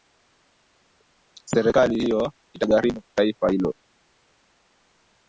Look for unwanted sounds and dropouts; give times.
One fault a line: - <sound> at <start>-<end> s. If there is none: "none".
none